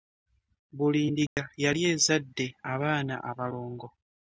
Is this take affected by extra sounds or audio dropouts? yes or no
yes